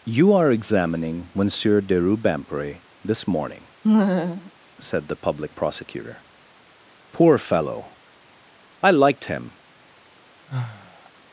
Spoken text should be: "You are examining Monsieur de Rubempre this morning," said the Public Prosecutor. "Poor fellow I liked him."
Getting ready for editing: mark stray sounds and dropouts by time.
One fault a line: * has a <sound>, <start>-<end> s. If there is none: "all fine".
* has a laugh, 3.8-4.5 s
* has a sigh, 10.5-11.1 s